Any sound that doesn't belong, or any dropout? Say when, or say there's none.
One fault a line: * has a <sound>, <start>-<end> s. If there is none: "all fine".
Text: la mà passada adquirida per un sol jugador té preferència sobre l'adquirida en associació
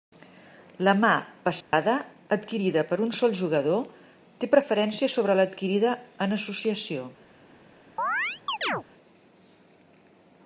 * has a dropout, 1.6-1.7 s
* has a chirp, 8.0-8.8 s